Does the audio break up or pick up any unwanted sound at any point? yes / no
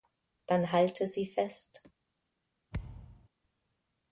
yes